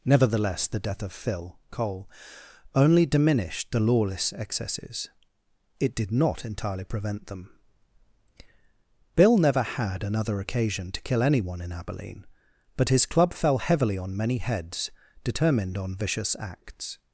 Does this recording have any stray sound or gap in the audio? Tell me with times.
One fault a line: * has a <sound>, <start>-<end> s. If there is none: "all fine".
all fine